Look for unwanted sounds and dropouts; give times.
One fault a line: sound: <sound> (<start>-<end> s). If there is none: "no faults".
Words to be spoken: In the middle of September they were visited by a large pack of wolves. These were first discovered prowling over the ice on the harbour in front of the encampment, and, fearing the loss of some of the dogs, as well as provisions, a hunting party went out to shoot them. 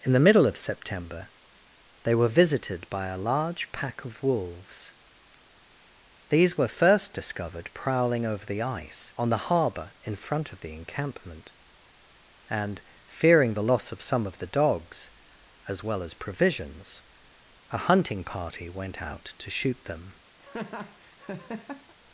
sound: laugh (20.4-21.9 s)